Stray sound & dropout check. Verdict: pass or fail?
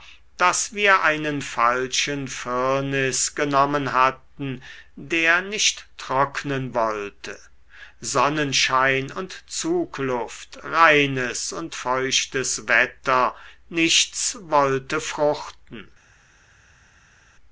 pass